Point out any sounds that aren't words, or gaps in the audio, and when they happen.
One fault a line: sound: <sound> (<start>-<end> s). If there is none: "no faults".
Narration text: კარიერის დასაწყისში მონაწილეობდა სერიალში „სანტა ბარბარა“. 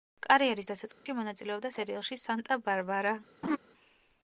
sound: dropout (0.9-1.1 s)
sound: laugh (3.4-3.6 s)